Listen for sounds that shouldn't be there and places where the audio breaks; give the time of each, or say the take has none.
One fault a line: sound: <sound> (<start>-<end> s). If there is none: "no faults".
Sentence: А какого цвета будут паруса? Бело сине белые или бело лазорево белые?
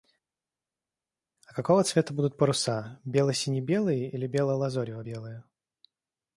no faults